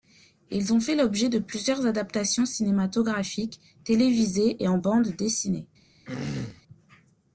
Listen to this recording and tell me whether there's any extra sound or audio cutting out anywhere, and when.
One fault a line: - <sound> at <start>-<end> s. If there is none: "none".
- throat clearing at 6.0-6.6 s